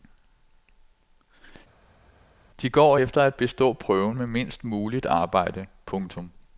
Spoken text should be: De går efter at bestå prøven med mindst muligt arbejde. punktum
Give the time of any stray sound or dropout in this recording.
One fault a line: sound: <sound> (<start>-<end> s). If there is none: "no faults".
no faults